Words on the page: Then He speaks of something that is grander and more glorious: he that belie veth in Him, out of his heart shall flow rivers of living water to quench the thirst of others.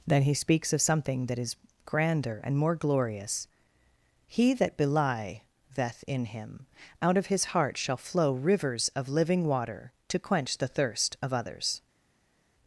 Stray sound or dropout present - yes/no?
no